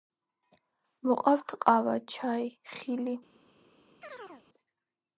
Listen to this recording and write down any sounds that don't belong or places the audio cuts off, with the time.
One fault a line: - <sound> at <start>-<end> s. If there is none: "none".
- chirp at 4.0-4.5 s